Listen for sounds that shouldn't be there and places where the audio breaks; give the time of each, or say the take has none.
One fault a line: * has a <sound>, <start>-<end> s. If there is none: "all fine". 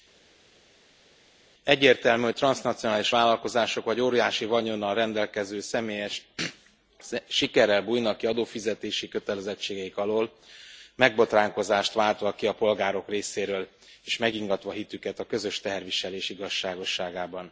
all fine